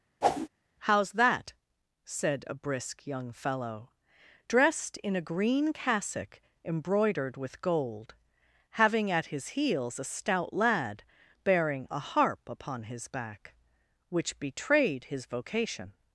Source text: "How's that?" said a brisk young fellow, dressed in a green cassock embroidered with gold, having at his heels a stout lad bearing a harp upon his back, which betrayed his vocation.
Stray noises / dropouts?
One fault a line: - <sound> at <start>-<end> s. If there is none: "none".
- whoosh at 0.2-0.5 s